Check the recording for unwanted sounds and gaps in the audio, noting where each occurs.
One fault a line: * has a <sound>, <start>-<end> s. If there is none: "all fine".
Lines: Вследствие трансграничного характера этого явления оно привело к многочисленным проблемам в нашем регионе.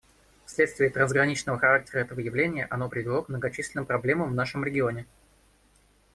all fine